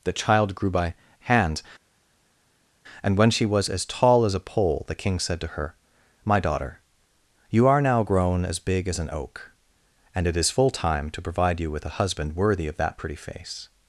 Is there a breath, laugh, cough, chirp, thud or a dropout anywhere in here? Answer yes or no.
no